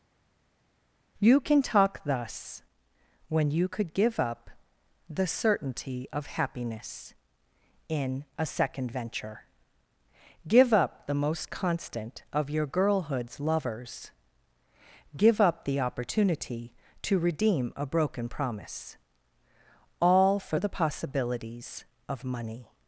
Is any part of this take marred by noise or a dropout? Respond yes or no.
no